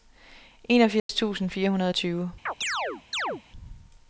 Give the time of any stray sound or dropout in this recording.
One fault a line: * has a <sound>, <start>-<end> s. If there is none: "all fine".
* has a dropout, 1.0-1.1 s
* has a chirp, 2.5-3.4 s